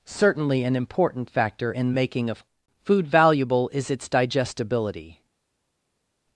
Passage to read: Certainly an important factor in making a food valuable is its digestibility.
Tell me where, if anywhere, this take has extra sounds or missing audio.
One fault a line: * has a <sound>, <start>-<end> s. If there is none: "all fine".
all fine